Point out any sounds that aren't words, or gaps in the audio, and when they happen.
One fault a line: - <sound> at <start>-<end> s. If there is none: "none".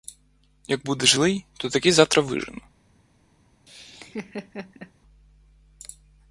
- laugh at 3.7-4.9 s